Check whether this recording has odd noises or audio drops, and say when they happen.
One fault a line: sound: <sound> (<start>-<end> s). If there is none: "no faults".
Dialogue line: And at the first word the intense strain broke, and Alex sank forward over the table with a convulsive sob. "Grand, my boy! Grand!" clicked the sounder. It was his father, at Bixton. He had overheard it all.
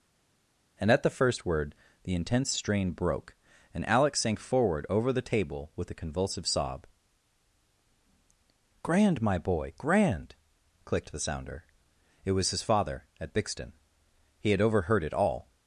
no faults